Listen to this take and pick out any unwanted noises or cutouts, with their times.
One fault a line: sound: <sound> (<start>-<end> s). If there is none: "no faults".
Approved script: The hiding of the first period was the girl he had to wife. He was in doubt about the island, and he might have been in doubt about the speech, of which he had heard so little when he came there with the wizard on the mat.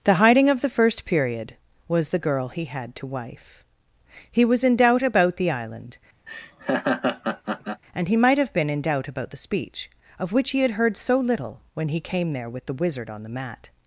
sound: laugh (6.3-7.8 s)